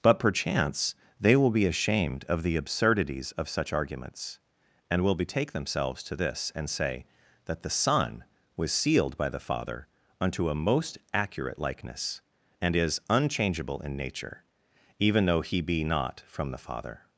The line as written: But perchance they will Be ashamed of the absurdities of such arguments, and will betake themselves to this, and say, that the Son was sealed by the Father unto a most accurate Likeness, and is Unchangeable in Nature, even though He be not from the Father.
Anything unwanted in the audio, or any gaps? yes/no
no